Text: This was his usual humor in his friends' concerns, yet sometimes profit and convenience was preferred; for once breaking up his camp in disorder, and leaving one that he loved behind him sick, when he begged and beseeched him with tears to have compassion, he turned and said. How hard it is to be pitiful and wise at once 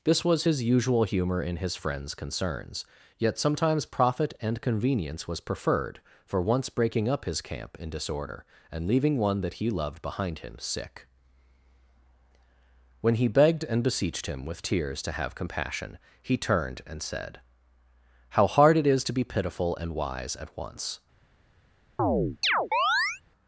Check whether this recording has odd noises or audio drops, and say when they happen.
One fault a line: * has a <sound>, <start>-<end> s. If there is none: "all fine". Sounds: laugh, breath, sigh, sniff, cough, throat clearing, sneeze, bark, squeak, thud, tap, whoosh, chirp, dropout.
* has a chirp, 22.0-23.2 s